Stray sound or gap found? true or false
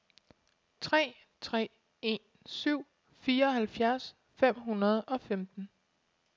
false